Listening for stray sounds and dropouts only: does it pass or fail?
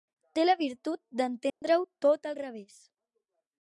fail